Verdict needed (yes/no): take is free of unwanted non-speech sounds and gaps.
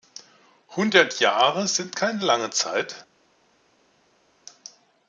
yes